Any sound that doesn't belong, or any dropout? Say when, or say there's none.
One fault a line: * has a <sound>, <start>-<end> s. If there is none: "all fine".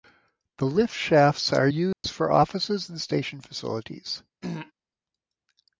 * has a dropout, 1.9-2.0 s
* has a throat clearing, 4.4-4.7 s